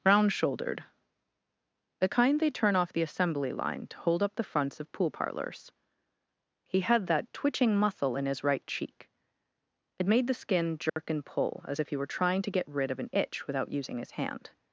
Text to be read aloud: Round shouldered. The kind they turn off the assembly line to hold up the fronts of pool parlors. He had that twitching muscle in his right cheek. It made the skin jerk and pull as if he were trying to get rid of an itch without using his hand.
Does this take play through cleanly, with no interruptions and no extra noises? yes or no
no